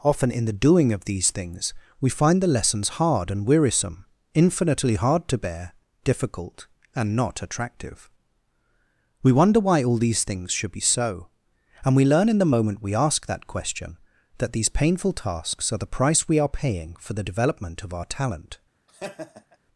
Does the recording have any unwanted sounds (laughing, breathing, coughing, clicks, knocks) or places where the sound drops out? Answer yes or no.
yes